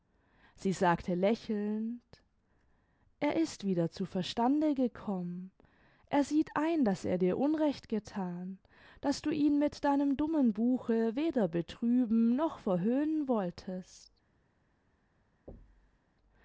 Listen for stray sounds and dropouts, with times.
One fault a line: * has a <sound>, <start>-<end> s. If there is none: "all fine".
* has a thud, 15.5-16.0 s